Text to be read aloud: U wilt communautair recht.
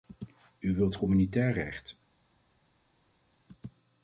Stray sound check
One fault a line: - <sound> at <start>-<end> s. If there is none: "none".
none